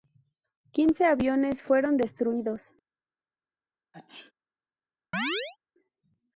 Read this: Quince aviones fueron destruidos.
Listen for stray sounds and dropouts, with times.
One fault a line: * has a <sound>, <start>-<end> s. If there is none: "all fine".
* has a sneeze, 3.9-4.3 s
* has a chirp, 5.1-5.6 s